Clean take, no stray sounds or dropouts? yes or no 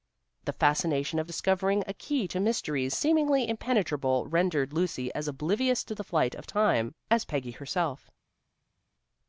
yes